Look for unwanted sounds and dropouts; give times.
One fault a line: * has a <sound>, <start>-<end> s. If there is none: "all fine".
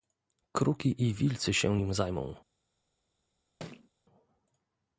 * has a thud, 3.6-3.9 s